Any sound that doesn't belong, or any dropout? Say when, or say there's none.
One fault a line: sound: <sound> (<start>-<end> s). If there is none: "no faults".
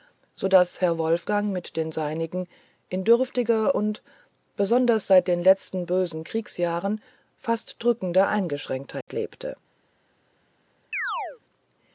sound: dropout (9.0-9.1 s)
sound: chirp (10.9-11.4 s)